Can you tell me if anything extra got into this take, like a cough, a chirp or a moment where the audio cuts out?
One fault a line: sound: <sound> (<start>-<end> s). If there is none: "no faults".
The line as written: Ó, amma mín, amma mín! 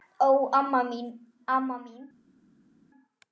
no faults